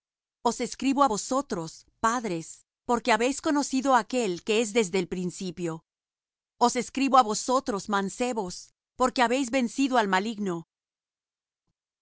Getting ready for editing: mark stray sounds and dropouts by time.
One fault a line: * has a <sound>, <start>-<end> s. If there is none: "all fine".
all fine